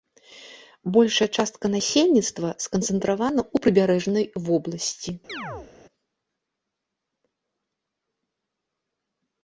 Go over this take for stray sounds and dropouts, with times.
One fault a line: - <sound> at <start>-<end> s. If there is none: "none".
- chirp at 5.3-5.7 s